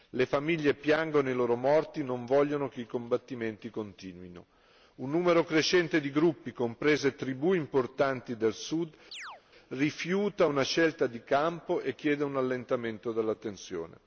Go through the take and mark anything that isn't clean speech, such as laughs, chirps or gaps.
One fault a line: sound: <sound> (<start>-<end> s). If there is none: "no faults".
sound: chirp (9.1-9.4 s)